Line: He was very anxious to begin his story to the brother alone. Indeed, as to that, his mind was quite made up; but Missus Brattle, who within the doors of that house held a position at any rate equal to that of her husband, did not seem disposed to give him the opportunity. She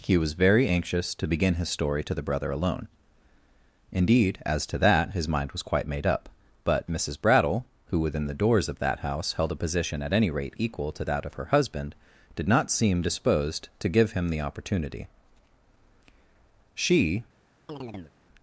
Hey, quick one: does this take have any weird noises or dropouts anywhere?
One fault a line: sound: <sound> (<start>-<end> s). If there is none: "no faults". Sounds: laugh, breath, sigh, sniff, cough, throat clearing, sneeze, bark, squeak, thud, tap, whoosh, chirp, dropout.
sound: chirp (17.7-18.1 s)